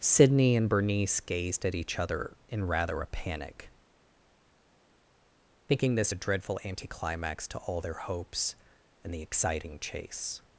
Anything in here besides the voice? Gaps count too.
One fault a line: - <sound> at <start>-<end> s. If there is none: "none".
none